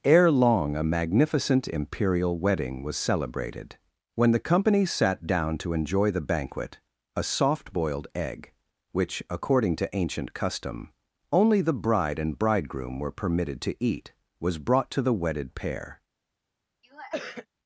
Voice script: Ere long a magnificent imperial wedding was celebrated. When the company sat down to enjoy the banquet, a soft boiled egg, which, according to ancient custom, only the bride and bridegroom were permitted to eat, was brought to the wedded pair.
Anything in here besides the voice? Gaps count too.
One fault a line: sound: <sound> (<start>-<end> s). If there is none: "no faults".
sound: sniff (16.8-17.5 s)